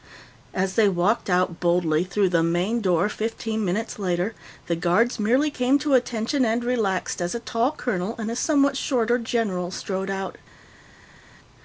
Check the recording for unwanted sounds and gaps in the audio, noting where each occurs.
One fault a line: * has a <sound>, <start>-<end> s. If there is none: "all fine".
all fine